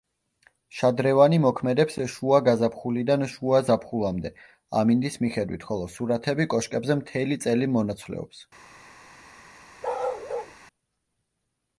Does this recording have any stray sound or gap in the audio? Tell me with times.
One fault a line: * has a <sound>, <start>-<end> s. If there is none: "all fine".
* has a bark, 9.8-10.6 s